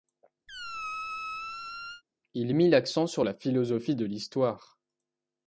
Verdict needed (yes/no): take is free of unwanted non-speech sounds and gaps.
no